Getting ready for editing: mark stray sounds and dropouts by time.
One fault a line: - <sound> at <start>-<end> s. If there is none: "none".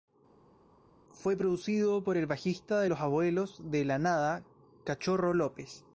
none